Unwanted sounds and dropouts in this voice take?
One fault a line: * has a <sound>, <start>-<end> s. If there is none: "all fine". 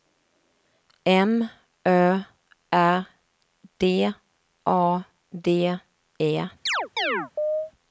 * has a chirp, 6.7-7.7 s